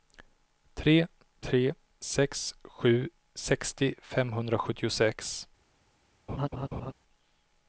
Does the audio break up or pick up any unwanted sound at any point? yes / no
yes